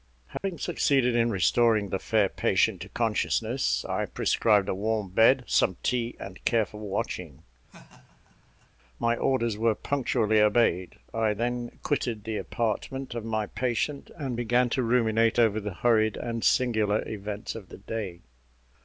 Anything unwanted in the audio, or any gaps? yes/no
yes